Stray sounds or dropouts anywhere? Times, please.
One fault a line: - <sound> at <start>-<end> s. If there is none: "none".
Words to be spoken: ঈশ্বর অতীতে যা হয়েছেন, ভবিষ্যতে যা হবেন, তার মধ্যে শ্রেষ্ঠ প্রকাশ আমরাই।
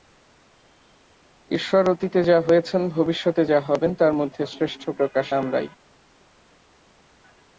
none